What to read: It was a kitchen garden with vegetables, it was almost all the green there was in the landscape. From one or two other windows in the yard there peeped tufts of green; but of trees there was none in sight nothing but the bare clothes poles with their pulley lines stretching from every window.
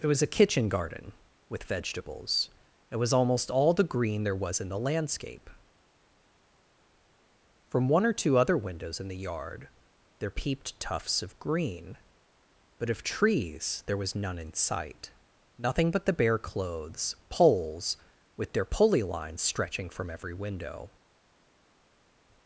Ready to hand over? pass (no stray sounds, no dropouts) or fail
pass